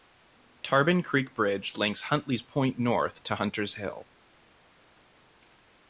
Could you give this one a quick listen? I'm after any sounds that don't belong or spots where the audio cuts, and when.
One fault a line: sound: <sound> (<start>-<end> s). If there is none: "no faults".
no faults